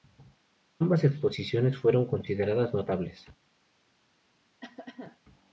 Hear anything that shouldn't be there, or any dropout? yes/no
yes